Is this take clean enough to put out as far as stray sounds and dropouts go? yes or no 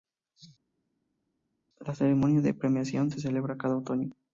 yes